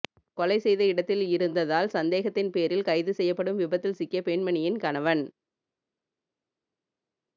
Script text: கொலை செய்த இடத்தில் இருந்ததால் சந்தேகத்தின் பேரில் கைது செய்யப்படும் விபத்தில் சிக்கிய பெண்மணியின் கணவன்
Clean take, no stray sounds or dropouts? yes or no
yes